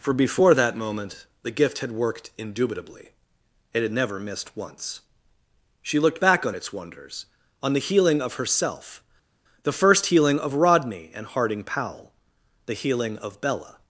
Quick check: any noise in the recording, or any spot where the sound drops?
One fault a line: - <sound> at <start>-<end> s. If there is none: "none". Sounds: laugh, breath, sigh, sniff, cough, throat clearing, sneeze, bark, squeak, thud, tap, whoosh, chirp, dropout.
none